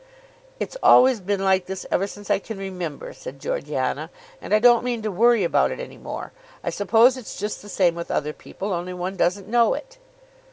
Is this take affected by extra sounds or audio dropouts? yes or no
no